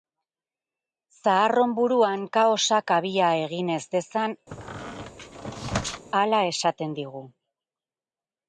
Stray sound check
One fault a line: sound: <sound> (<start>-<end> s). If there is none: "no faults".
sound: squeak (4.5-6.1 s)